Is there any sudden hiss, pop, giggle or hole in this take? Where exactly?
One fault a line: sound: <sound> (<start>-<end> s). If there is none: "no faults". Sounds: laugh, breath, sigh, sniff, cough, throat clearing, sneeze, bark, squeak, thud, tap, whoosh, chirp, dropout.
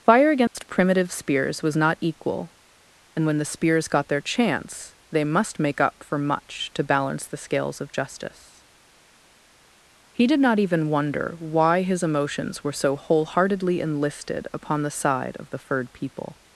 sound: dropout (0.5-0.5 s)